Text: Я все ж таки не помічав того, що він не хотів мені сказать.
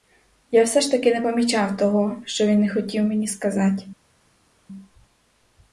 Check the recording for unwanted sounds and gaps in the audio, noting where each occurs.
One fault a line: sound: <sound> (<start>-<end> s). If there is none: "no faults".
no faults